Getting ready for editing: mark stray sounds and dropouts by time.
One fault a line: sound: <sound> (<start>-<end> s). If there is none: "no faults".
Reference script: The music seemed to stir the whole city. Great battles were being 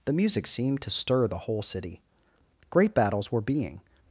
no faults